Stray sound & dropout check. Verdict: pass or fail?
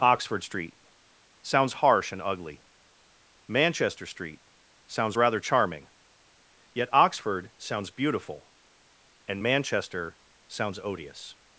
pass